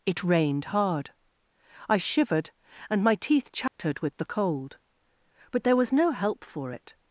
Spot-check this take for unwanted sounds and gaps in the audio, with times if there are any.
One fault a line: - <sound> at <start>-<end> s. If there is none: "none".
- dropout at 3.7-3.8 s